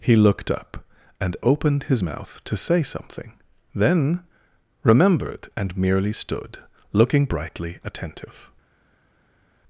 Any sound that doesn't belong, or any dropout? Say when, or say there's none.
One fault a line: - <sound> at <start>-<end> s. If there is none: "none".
none